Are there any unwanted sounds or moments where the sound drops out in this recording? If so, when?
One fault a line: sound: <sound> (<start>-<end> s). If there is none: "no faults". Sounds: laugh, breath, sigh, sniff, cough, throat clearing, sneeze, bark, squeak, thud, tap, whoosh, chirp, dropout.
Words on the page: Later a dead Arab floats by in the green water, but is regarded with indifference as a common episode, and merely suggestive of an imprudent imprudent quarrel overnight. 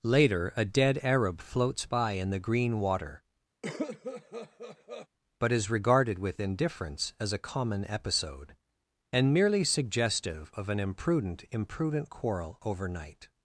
sound: cough (3.6-5.1 s)